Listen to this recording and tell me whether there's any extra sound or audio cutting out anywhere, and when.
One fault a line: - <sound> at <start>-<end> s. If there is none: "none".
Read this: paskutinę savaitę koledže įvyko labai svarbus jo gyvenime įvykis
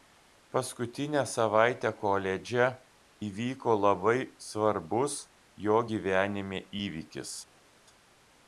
none